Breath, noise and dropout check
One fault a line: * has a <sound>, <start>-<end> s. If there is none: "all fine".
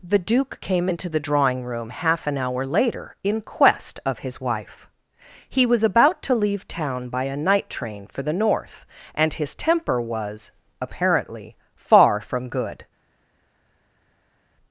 all fine